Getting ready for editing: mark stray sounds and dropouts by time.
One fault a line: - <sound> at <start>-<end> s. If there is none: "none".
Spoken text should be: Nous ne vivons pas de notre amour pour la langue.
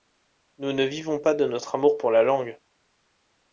none